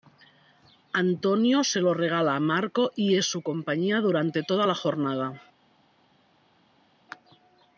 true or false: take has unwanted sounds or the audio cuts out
false